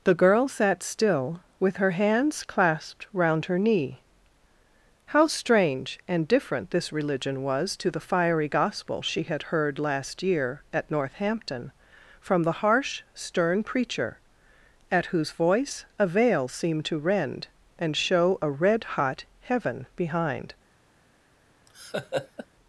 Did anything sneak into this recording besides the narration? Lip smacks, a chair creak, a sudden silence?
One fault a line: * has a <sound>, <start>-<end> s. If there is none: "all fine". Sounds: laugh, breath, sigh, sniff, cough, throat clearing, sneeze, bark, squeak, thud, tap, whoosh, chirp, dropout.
* has a laugh, 21.7-22.5 s